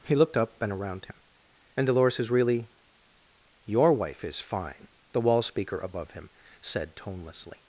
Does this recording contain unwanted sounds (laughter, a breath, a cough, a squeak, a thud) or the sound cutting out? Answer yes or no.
no